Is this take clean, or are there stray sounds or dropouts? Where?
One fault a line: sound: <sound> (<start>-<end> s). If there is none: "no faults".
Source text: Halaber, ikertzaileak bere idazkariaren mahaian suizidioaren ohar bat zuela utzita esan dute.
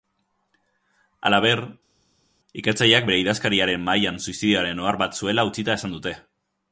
no faults